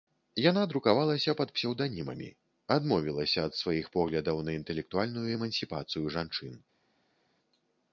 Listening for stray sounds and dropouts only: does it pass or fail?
pass